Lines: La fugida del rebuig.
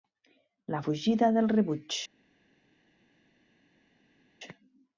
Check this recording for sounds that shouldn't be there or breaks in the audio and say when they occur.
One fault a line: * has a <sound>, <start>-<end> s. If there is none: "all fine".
all fine